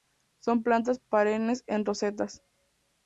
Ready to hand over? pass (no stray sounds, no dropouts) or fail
pass